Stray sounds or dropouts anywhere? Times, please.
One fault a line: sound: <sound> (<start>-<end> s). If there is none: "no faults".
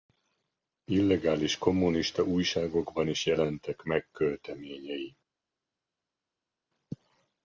no faults